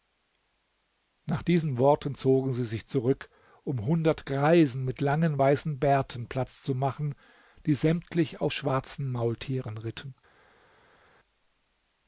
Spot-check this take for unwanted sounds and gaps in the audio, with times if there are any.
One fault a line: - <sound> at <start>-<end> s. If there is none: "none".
none